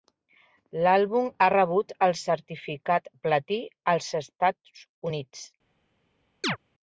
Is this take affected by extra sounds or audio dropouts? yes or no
yes